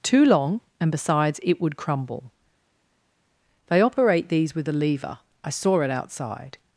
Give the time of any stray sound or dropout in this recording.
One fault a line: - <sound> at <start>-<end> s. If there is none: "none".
none